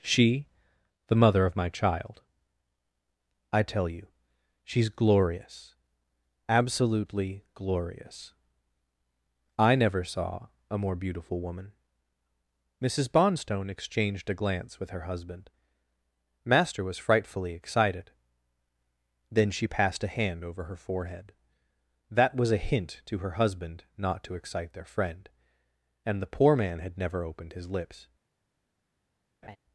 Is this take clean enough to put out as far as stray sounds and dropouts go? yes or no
no